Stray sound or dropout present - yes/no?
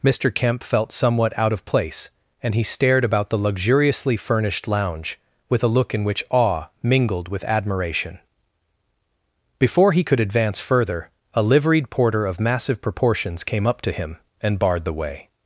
no